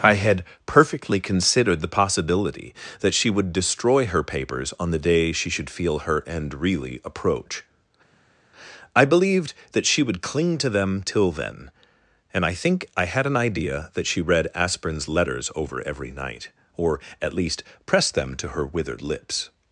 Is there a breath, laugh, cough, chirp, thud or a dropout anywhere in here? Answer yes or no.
no